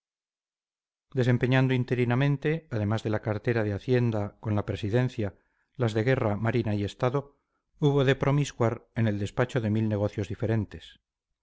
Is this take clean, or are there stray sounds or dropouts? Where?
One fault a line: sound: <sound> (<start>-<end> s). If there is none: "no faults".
no faults